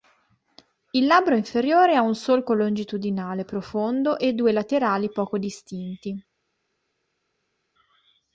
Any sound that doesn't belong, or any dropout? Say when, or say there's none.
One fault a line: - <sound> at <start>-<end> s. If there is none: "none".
none